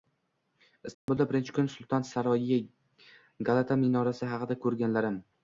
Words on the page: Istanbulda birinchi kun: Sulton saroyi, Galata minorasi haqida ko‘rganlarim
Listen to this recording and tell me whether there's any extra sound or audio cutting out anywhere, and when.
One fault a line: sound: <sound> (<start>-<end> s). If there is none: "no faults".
sound: dropout (0.9-1.1 s)